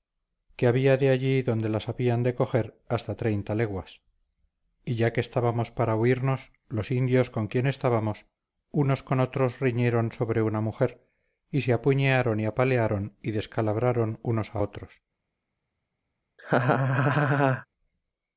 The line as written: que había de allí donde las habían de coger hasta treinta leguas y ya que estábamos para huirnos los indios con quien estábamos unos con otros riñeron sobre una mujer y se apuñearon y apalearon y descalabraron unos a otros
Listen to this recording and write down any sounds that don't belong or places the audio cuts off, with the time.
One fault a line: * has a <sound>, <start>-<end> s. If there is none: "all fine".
* has a laugh, 16.4-17.7 s